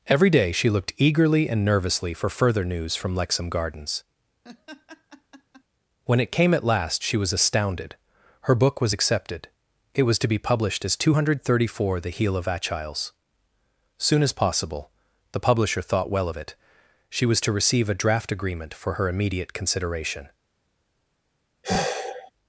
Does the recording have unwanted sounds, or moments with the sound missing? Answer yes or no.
yes